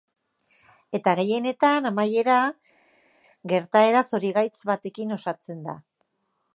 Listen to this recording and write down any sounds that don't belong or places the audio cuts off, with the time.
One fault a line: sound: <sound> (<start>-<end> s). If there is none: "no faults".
no faults